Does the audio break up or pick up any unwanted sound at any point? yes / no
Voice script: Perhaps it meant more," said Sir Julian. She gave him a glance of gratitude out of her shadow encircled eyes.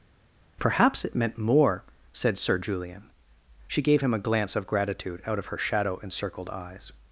no